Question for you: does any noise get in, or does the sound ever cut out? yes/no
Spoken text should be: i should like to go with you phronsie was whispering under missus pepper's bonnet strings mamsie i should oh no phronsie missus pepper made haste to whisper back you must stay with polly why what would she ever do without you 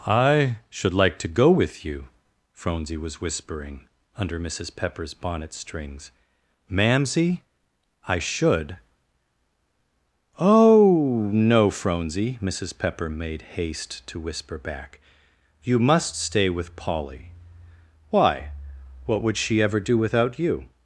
no